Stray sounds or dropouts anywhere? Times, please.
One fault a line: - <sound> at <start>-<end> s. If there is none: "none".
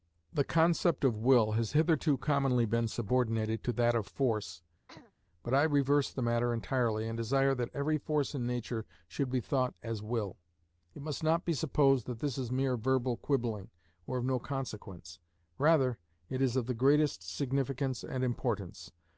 - throat clearing at 4.9-5.1 s